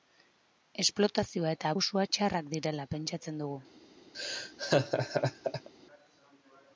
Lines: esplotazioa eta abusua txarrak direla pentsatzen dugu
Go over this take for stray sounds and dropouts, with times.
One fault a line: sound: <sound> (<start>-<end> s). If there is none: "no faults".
sound: laugh (4.1-5.7 s)